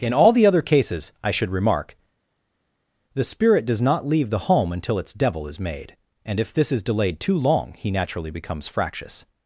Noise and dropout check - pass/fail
pass